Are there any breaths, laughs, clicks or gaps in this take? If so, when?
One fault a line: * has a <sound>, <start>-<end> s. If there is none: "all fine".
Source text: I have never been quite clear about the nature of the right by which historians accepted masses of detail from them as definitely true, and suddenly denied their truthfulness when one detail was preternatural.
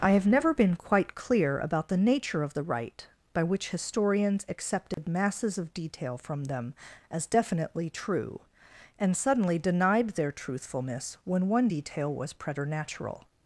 * has a dropout, 4.9-5.0 s